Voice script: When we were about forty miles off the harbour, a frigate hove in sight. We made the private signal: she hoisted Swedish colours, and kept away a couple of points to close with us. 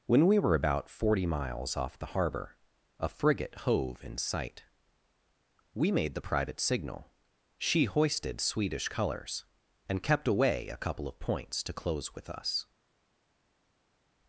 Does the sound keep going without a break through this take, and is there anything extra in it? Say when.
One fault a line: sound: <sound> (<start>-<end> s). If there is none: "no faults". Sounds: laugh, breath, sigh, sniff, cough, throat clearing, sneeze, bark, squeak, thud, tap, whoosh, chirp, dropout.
no faults